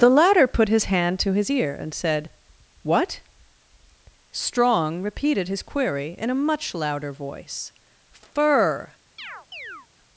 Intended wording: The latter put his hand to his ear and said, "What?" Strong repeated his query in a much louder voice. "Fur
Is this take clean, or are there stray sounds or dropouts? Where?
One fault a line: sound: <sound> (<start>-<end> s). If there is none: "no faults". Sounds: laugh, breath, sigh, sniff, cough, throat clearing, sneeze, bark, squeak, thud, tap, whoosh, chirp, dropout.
sound: chirp (9.2-9.9 s)